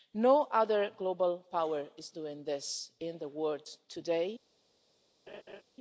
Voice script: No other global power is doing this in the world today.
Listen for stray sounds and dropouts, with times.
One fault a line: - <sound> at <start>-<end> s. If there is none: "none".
- laugh at 5.3-5.6 s